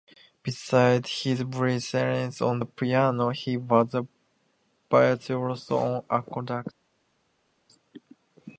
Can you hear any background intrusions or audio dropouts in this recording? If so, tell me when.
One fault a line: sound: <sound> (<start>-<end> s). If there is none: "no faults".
no faults